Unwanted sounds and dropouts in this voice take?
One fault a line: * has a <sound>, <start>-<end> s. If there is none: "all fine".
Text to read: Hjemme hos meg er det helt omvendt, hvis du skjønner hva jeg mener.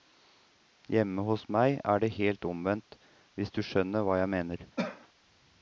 * has a cough, 4.8-5.1 s